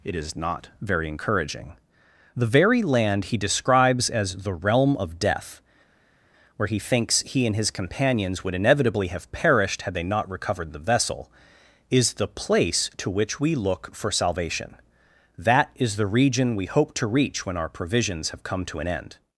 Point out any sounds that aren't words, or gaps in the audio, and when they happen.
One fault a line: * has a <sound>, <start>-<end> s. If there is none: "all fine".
all fine